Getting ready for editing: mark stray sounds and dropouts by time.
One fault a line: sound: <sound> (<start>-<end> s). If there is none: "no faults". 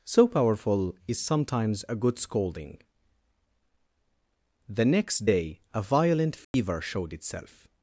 sound: dropout (6.4-6.5 s)